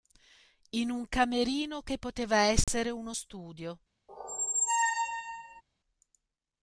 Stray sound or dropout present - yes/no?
yes